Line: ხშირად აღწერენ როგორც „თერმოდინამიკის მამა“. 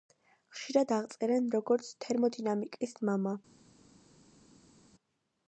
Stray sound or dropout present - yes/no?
no